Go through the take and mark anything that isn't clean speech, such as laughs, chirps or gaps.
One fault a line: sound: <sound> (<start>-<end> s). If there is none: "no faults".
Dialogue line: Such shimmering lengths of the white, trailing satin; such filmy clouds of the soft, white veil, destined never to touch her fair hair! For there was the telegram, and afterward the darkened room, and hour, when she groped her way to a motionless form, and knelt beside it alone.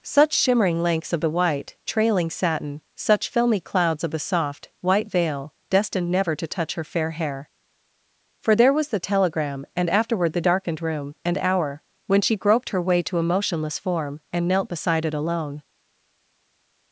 no faults